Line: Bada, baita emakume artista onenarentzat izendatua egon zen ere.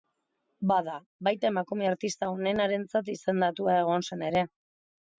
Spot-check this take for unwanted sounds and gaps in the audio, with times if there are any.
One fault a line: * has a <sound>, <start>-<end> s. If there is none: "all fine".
all fine